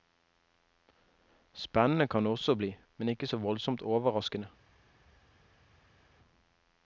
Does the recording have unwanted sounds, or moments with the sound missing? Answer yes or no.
no